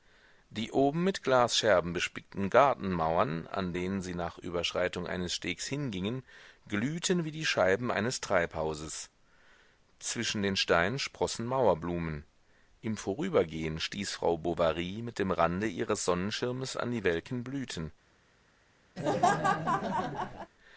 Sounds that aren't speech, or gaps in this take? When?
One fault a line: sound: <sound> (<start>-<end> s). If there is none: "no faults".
sound: laugh (19.0-20.5 s)